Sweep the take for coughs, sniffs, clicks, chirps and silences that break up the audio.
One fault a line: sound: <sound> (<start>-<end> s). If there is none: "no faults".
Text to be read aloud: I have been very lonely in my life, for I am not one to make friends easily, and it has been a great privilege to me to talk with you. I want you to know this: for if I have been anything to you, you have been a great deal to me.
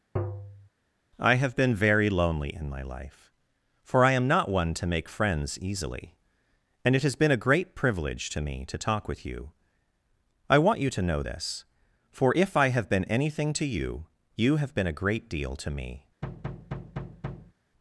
sound: tap (0.2-0.7 s)
sound: thud (16.2-17.5 s)